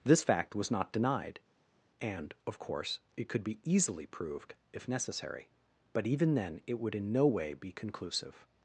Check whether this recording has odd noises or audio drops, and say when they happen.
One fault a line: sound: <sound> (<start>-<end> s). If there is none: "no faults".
no faults